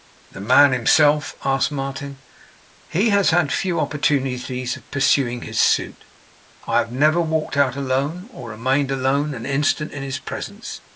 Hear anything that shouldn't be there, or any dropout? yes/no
no